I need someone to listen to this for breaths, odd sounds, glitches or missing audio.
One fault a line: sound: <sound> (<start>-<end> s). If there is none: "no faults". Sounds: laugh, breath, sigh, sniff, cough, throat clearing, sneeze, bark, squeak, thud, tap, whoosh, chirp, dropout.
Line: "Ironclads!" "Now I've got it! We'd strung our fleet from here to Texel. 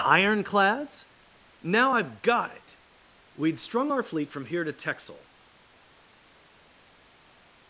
no faults